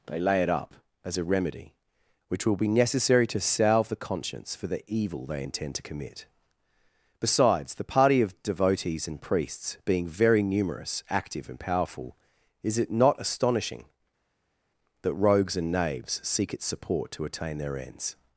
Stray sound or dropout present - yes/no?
no